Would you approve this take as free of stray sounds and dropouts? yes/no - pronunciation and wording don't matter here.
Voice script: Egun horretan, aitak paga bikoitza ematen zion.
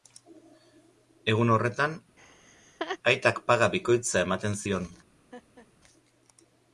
no